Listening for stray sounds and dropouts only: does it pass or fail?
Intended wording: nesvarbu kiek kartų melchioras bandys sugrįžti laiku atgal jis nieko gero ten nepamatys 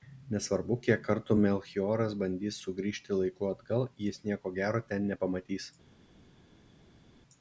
pass